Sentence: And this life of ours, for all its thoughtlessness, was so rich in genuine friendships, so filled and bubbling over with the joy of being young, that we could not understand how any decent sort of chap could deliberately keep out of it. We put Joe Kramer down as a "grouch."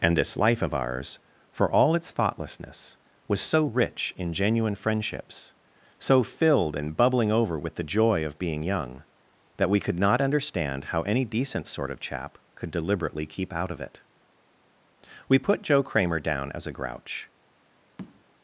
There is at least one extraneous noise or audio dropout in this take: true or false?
true